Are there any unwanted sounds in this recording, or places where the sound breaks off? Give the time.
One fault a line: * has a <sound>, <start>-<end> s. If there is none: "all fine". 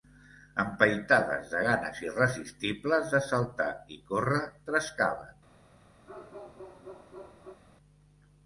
* has a bark, 6.1-7.6 s